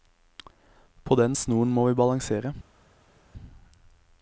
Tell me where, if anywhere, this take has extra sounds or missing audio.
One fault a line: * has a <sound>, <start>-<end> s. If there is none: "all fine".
all fine